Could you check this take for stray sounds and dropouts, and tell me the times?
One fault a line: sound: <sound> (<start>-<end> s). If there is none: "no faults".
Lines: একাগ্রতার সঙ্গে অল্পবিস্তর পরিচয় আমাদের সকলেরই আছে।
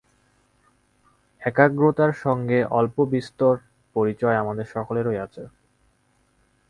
no faults